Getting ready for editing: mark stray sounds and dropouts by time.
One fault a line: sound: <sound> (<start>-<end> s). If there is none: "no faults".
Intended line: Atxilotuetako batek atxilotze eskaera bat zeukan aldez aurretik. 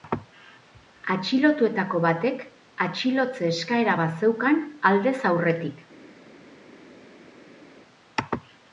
no faults